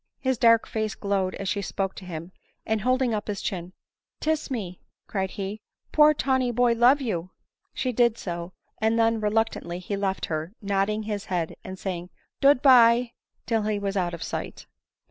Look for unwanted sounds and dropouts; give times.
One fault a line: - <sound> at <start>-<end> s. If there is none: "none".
none